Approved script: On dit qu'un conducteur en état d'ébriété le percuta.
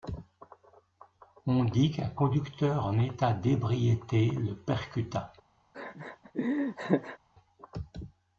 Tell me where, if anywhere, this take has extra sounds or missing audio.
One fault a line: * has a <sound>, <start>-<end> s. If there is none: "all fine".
* has a laugh, 5.7-7.2 s